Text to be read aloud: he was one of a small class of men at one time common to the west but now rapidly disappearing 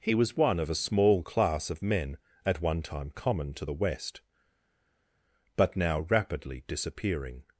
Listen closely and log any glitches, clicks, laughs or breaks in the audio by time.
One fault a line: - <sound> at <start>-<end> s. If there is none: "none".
none